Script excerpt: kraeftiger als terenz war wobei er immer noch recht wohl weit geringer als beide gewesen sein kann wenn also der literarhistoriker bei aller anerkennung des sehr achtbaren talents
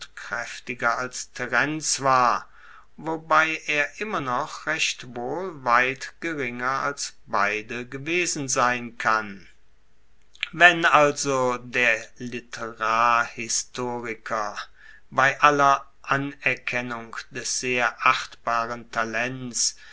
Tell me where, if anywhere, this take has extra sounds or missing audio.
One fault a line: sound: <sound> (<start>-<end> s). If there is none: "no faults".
no faults